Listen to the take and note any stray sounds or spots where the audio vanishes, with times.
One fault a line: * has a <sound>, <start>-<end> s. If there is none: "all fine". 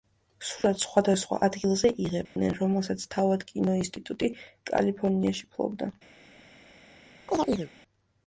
* has a dropout, 2.3-2.4 s
* has a chirp, 7.3-7.7 s